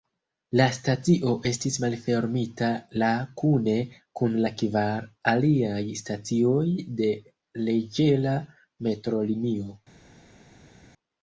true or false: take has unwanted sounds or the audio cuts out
false